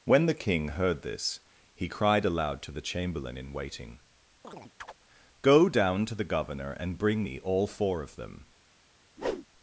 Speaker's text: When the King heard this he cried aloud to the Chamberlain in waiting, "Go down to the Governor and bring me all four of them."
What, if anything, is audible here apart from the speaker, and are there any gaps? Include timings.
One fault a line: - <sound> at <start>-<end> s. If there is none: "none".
- chirp at 4.4-4.9 s
- whoosh at 9.2-9.5 s